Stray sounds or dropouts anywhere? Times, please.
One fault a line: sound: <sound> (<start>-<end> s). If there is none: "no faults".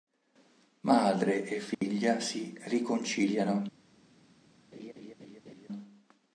sound: dropout (1.7-1.8 s)
sound: laugh (4.7-5.7 s)